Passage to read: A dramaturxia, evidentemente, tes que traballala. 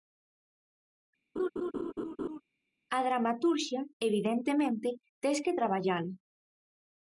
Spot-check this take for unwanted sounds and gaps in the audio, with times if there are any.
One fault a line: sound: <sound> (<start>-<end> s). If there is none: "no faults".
sound: laugh (1.4-2.4 s)